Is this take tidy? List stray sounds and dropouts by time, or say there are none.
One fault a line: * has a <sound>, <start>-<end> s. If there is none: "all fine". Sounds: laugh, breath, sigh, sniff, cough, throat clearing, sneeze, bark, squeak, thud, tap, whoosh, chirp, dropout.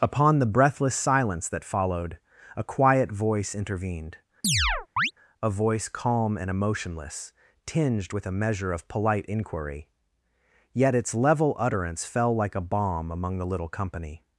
* has a chirp, 4.4-5.1 s